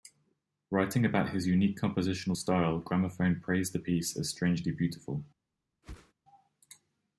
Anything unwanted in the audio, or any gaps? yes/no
yes